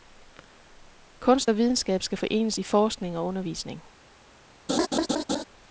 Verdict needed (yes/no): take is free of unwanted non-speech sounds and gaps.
no